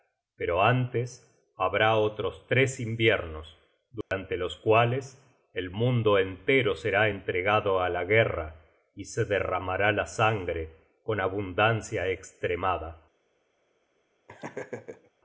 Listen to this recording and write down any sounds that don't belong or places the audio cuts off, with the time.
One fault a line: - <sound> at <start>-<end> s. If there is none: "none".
- dropout at 4.0-4.1 s
- laugh at 14.3-15.1 s